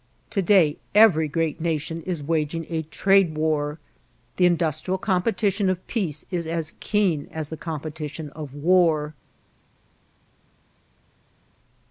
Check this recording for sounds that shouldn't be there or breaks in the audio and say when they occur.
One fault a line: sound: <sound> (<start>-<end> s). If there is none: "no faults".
no faults